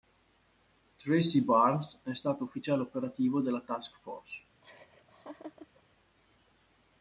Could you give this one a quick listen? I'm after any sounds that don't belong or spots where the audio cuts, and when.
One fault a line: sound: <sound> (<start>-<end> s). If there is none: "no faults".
sound: laugh (4.6-5.8 s)